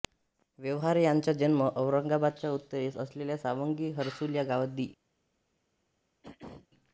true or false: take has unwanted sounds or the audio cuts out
true